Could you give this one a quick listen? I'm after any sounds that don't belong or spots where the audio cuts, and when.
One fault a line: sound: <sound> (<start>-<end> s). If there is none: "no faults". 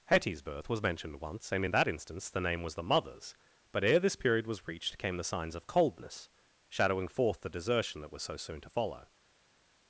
no faults